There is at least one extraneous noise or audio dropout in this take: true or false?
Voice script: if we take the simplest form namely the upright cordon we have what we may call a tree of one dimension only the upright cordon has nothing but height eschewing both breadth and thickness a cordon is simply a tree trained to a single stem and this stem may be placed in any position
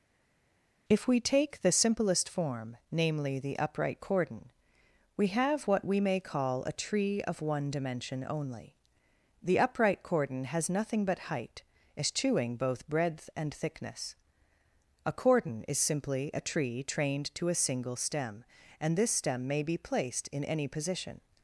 false